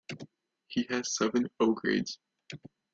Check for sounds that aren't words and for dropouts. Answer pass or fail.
pass